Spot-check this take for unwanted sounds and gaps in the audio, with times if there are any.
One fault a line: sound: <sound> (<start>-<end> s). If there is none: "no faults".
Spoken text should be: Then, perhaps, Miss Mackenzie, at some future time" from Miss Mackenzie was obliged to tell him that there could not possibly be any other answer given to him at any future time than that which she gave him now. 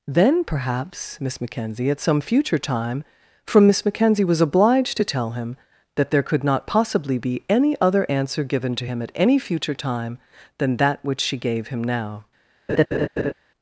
sound: laugh (12.7-13.3 s)